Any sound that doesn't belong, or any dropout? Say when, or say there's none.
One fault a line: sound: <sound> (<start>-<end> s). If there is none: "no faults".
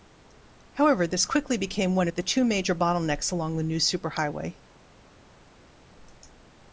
no faults